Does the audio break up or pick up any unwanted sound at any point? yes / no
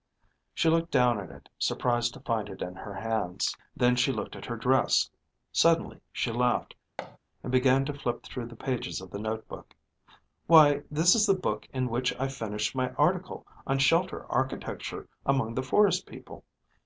yes